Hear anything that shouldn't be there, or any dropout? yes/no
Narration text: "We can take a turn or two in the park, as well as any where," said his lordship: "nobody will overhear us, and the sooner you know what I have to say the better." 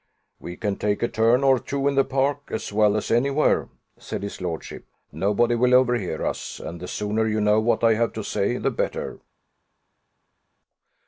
no